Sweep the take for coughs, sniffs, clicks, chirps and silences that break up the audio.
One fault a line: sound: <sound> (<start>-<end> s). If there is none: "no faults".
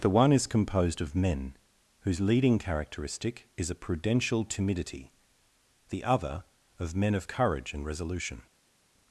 no faults